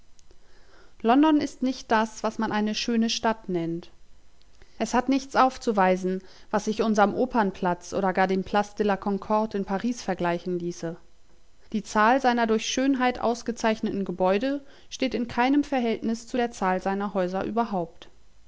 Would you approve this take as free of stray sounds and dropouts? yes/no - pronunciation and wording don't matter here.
yes